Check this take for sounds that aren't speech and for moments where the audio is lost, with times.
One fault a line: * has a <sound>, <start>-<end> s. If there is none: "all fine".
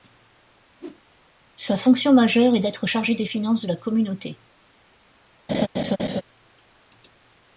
* has a whoosh, 0.8-1.0 s
* has a laugh, 5.5-6.2 s